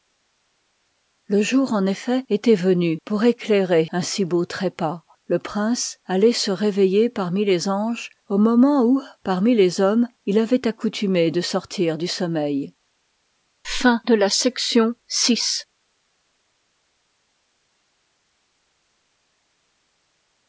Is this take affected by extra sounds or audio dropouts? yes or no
no